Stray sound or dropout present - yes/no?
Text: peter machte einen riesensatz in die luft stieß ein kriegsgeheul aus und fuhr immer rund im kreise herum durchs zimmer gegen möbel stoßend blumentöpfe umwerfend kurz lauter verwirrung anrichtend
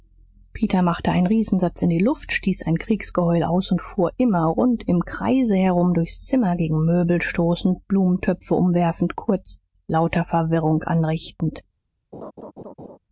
yes